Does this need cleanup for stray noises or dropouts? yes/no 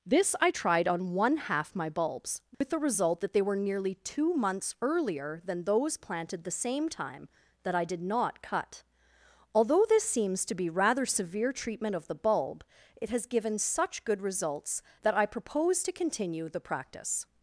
yes